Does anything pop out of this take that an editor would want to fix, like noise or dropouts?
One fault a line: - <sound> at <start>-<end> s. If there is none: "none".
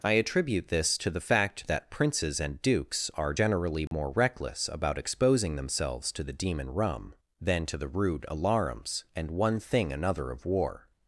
- dropout at 3.9-3.9 s